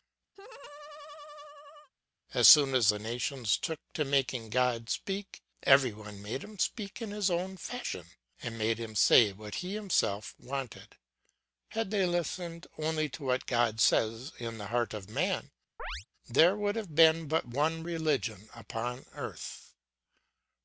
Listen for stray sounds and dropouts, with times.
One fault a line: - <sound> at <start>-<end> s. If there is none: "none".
- laugh at 0.3-1.9 s
- chirp at 15.8-16.1 s